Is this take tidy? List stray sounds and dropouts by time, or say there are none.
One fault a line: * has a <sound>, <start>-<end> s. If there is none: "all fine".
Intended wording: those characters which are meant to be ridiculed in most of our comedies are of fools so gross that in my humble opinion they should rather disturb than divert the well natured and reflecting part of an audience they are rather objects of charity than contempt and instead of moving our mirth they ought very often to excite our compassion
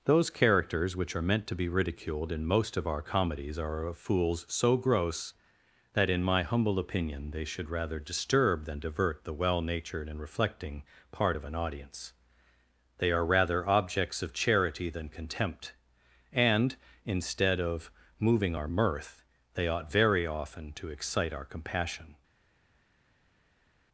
all fine